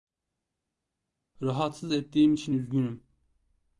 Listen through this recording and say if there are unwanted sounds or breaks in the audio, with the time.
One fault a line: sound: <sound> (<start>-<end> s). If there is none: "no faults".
no faults